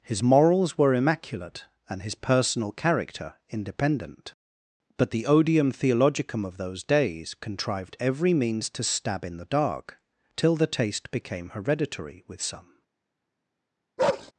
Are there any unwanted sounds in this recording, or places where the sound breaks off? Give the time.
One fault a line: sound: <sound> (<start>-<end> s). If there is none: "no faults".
sound: bark (14.0-14.3 s)